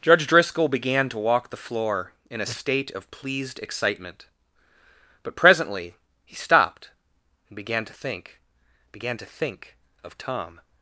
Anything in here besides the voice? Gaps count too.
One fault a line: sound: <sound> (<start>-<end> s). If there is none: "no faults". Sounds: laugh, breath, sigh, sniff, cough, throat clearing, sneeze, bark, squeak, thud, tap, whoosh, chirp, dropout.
no faults